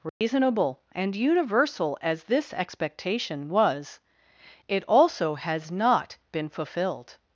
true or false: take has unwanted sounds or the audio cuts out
true